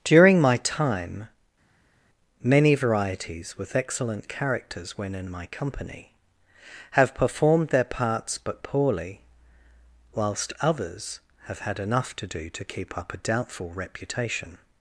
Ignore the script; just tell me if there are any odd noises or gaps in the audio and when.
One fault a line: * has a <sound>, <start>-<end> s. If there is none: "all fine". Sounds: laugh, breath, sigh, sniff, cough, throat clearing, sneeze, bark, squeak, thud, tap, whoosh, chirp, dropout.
all fine